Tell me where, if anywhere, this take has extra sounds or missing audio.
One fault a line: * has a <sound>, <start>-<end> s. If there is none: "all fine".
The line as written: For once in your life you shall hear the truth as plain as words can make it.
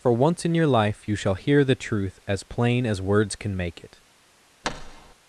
* has a thud, 4.6-5.1 s